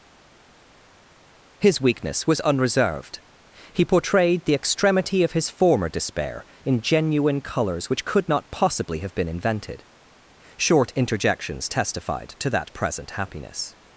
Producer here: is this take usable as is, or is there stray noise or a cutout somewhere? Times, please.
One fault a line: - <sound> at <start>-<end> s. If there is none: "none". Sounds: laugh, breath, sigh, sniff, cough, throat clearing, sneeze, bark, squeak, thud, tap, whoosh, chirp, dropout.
none